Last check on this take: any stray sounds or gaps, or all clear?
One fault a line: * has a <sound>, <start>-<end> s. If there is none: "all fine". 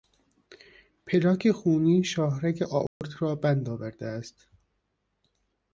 * has a dropout, 2.9-3.0 s